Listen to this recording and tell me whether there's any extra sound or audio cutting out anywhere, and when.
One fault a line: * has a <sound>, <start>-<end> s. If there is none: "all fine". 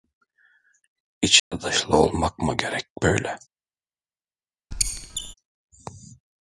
* has a dropout, 1.4-1.5 s
* has a squeak, 4.7-5.3 s